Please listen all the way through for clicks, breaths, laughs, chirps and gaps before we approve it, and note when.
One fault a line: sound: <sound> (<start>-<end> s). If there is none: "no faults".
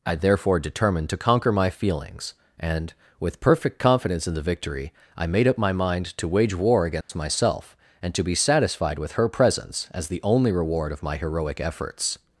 sound: dropout (7.0-7.1 s)